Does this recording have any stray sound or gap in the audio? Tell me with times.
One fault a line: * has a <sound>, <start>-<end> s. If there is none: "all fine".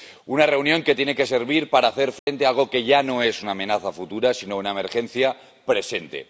* has a dropout, 2.2-2.3 s